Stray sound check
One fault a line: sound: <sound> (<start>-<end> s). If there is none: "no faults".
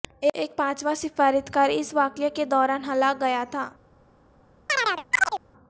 sound: chirp (4.7-5.4 s)